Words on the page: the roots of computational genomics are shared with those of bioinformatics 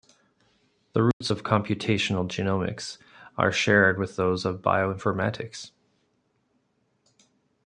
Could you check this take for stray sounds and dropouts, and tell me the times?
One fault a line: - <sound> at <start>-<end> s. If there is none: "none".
- dropout at 1.1-1.2 s